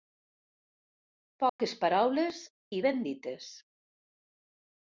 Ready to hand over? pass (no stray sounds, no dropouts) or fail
fail